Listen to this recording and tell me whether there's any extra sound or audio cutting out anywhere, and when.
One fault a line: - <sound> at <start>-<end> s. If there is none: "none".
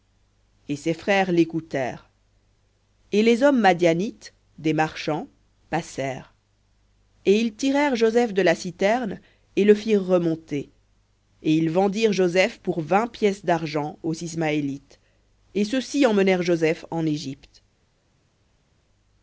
none